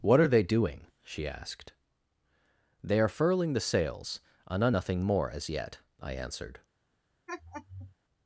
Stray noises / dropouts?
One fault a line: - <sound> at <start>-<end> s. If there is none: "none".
- laugh at 7.3-7.9 s